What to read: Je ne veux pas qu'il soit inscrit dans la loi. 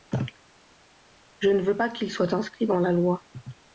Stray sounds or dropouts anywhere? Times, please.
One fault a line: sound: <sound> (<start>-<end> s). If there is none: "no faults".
no faults